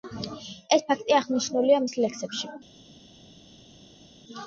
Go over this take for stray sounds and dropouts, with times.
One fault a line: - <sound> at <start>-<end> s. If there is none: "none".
none